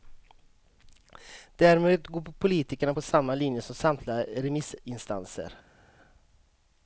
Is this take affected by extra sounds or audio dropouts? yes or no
no